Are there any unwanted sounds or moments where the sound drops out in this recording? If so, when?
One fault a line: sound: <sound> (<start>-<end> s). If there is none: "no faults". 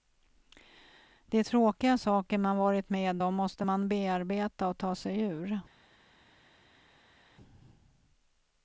no faults